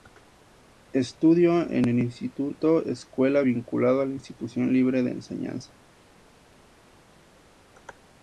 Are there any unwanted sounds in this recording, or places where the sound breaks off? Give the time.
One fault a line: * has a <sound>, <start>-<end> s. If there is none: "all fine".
all fine